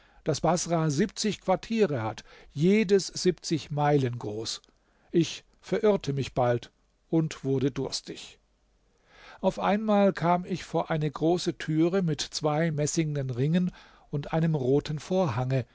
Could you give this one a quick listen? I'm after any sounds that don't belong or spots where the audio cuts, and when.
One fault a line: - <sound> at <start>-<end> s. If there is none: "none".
none